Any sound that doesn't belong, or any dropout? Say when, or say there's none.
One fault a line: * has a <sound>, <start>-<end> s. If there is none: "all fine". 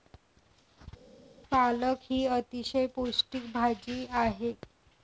all fine